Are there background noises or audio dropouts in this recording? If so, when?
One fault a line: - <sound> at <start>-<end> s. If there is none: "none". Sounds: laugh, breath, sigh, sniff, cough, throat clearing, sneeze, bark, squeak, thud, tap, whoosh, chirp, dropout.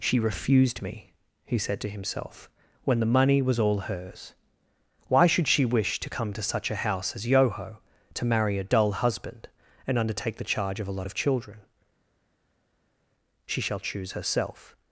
none